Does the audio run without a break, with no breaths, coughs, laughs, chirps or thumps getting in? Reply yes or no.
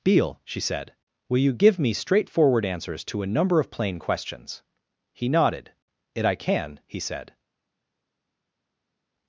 yes